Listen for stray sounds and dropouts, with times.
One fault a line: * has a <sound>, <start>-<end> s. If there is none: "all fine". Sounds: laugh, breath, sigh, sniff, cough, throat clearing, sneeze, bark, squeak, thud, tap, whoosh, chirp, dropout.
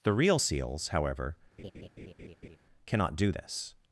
* has a laugh, 1.6-2.6 s